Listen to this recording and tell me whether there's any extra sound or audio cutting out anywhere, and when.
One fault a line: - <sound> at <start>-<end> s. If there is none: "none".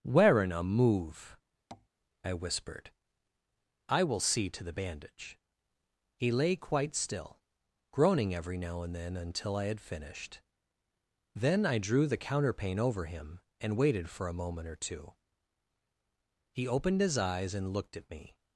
- tap at 1.7-1.9 s